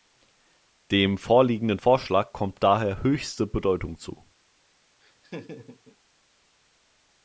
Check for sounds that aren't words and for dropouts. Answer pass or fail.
fail